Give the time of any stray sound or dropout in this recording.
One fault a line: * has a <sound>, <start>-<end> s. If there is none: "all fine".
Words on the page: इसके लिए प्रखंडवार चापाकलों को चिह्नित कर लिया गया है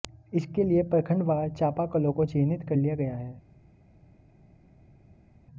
all fine